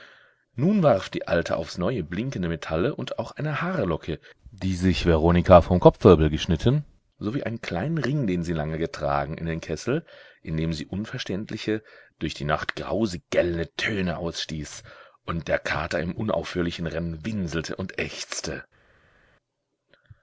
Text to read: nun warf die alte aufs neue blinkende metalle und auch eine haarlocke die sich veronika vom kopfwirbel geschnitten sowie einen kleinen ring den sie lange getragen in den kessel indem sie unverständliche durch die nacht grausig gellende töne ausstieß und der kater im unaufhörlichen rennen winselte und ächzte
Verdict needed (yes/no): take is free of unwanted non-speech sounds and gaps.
yes